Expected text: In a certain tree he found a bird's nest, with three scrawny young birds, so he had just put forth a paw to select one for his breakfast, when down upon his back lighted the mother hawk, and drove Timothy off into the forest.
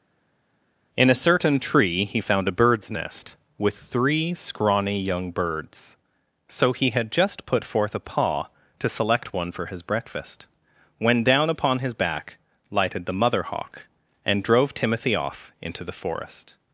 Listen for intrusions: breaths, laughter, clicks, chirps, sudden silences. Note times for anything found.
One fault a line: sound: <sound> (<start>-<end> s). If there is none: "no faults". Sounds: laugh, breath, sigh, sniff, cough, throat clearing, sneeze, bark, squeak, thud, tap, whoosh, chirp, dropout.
no faults